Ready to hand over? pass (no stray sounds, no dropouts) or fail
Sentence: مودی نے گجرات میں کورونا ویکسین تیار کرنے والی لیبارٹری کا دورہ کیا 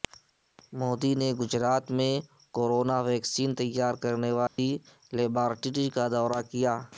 fail